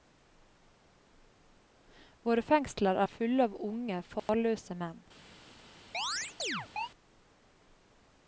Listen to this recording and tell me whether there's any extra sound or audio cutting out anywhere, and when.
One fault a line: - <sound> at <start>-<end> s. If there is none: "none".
- dropout at 4.2-4.3 s
- chirp at 5.9-6.9 s